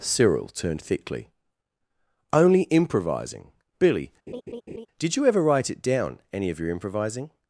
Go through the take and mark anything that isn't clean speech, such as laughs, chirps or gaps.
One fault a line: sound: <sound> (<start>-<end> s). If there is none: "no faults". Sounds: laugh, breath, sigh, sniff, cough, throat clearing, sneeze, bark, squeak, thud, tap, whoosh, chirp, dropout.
sound: laugh (4.3-4.9 s)